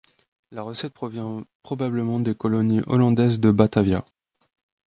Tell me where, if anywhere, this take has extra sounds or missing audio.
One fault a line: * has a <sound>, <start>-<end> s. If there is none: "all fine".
all fine